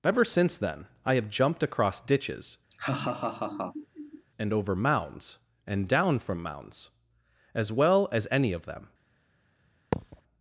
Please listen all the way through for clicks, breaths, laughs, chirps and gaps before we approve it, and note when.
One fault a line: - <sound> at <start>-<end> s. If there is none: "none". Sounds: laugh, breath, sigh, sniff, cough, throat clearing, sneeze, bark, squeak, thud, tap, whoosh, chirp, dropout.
- laugh at 2.7-4.2 s
- thud at 9.9-10.2 s